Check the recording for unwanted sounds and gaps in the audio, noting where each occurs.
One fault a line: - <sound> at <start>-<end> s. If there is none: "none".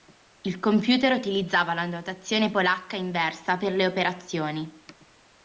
none